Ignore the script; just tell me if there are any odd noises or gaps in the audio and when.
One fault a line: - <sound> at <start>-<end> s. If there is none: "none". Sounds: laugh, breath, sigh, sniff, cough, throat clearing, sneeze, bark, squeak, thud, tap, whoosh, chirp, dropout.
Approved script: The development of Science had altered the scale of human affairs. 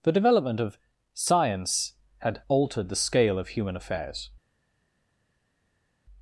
none